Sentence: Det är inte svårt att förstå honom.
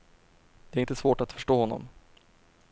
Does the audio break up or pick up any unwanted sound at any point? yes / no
no